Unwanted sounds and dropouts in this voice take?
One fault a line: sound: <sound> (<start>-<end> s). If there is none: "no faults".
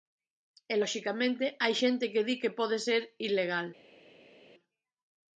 no faults